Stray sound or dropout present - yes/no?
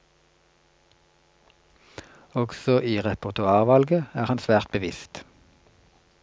no